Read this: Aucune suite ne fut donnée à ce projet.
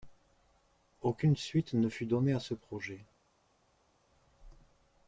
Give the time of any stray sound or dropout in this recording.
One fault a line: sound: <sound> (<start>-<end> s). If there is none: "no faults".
no faults